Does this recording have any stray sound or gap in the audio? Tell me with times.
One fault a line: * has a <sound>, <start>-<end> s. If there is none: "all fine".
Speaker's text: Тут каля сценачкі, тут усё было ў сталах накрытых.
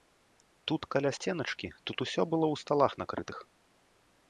all fine